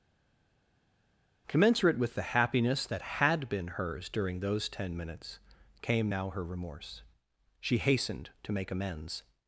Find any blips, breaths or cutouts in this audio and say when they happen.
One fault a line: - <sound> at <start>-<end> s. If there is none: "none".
none